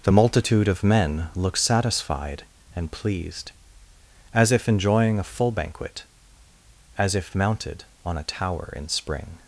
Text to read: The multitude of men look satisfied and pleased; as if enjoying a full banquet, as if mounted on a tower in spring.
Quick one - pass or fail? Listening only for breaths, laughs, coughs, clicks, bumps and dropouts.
pass